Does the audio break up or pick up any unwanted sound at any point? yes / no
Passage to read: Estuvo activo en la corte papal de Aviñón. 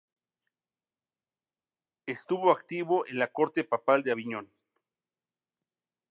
no